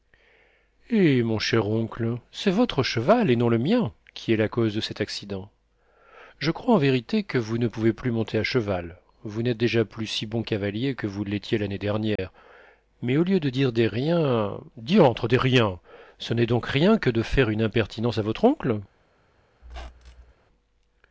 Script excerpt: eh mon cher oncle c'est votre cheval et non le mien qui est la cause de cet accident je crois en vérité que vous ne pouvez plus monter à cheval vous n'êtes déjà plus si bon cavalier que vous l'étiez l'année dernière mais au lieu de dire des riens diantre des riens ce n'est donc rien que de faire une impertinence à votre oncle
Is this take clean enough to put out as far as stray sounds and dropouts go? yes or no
no